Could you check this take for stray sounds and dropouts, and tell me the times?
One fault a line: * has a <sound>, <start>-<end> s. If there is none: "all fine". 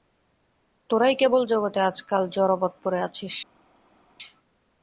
all fine